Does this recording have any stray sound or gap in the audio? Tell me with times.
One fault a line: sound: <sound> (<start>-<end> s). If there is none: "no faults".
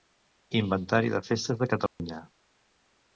sound: dropout (1.9-2.0 s)